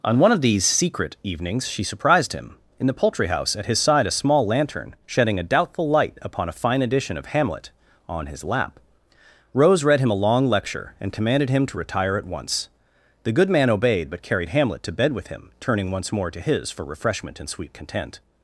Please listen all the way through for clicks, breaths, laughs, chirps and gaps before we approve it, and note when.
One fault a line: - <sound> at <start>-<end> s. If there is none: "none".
none